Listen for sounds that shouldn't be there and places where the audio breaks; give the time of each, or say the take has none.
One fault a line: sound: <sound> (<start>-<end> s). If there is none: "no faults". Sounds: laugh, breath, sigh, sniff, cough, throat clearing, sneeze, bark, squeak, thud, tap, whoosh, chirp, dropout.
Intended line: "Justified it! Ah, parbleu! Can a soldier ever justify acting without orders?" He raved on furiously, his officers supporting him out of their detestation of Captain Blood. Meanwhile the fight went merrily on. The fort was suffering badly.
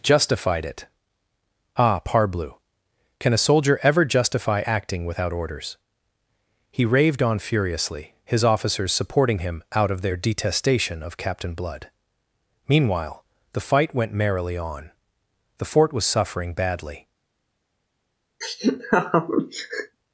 sound: laugh (18.4-20.0 s)